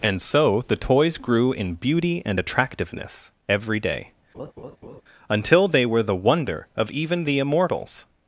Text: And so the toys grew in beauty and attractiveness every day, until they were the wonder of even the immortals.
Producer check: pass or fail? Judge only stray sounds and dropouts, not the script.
fail